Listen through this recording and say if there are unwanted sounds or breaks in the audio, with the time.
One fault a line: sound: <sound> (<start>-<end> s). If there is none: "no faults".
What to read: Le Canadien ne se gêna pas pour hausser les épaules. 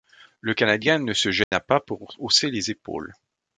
sound: dropout (1.4-1.5 s)